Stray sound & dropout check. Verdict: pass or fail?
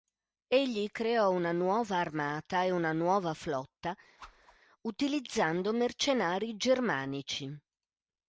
fail